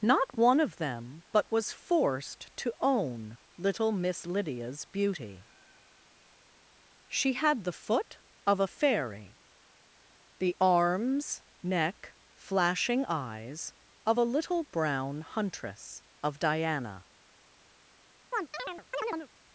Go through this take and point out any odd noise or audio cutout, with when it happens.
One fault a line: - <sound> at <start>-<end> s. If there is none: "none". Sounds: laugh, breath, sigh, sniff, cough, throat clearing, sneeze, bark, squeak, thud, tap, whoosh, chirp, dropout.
- chirp at 18.3-19.3 s